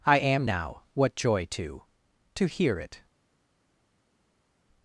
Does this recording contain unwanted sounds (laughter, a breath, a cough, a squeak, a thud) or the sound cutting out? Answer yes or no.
no